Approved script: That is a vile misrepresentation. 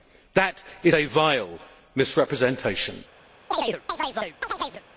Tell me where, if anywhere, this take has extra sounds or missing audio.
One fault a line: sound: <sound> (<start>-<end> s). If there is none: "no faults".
sound: chirp (3.5-4.8 s)